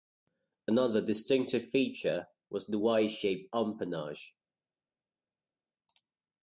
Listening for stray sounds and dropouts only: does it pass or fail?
pass